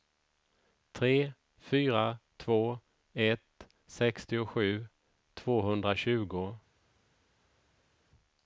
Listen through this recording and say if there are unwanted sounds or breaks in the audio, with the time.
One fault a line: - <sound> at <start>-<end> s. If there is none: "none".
none